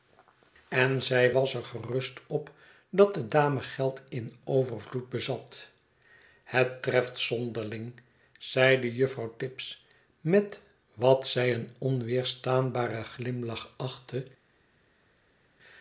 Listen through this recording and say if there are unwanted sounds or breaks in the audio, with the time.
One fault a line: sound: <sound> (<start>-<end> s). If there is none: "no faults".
no faults